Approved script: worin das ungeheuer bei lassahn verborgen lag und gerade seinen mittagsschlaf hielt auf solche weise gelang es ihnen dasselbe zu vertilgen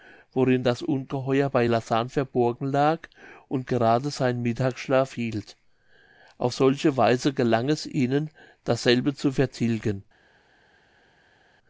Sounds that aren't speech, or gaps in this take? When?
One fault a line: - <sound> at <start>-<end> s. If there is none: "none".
none